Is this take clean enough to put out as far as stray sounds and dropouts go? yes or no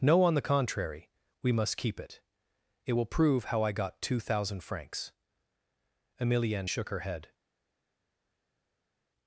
yes